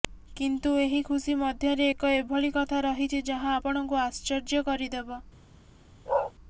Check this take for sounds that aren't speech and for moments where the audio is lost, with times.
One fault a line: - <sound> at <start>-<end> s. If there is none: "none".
- bark at 6.1-6.3 s